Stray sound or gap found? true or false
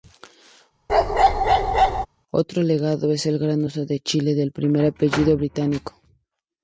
true